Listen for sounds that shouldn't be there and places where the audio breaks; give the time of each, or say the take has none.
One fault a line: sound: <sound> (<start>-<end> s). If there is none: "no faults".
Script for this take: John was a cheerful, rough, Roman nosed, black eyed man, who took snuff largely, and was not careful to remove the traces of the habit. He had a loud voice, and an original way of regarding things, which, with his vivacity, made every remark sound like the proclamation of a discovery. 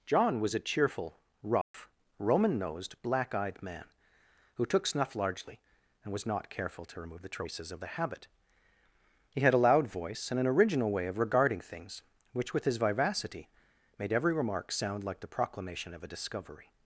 sound: dropout (1.6-1.7 s)